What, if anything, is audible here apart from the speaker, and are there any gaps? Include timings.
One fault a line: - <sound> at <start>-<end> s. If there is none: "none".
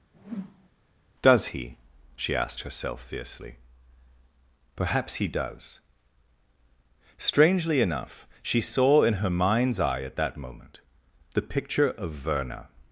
- whoosh at 0.1-0.7 s